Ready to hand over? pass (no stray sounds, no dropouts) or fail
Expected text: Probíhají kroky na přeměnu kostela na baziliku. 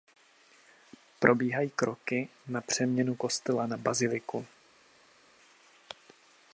pass